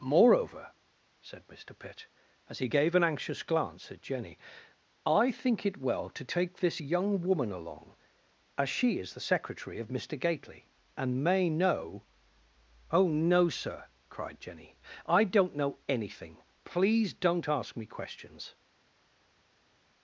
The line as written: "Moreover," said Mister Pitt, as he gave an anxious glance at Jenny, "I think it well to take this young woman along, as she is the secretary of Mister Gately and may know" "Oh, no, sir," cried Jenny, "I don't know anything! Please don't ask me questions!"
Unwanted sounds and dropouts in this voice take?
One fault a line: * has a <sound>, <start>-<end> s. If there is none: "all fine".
all fine